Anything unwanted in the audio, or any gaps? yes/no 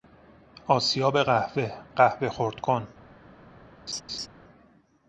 yes